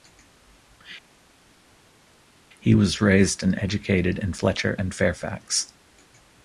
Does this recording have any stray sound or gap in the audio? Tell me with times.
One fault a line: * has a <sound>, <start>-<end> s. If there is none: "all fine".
all fine